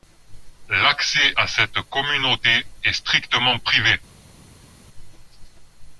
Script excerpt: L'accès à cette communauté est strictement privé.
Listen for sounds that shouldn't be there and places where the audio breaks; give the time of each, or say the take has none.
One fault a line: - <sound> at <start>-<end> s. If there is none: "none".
none